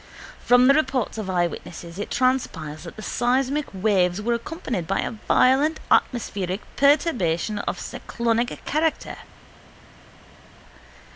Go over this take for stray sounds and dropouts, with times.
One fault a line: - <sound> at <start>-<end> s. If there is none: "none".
none